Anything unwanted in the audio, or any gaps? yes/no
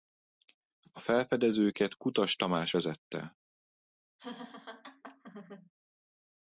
yes